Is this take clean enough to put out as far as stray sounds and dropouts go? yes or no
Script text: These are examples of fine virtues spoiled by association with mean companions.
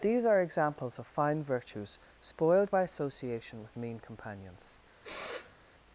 no